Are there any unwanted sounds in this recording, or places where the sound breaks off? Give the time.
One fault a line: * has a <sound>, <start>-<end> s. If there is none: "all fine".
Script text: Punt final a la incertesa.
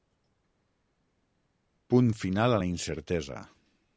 all fine